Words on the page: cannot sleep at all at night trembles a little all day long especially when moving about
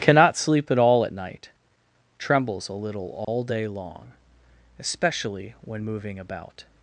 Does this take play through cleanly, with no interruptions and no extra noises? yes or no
no